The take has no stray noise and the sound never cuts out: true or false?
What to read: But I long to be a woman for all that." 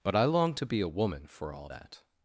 true